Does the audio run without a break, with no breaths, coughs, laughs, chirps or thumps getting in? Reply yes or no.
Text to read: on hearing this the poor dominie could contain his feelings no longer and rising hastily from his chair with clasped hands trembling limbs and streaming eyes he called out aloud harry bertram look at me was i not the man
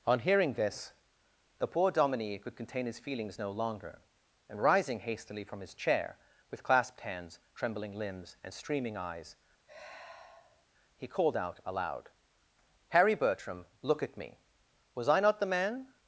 no